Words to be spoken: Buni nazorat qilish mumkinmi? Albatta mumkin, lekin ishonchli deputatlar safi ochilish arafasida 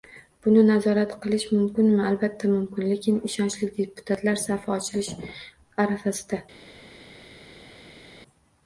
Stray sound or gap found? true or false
false